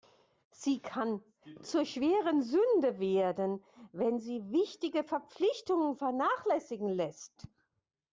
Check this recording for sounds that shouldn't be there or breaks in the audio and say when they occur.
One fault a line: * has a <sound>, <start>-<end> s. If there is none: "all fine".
all fine